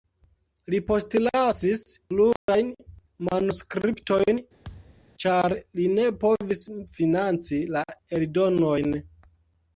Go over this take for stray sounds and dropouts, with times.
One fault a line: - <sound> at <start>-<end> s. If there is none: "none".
- dropout at 2.4-2.5 s
- thud at 4.6-5.1 s